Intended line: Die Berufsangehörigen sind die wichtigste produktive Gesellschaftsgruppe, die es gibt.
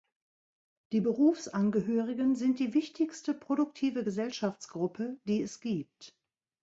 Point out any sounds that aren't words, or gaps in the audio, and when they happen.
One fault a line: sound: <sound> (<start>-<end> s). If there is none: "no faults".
no faults